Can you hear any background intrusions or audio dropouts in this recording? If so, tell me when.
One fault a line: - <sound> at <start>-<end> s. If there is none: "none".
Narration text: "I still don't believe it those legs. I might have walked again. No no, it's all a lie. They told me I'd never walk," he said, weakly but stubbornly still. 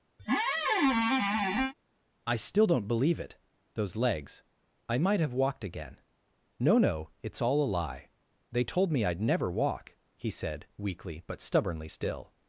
- squeak at 0.2-1.7 s